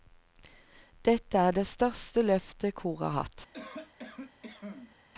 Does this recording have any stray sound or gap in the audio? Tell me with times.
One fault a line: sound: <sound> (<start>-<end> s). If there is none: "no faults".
sound: cough (3.5-5.0 s)